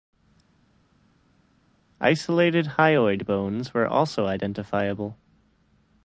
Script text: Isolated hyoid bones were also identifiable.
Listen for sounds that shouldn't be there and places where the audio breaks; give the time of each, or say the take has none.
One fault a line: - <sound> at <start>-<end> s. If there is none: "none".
none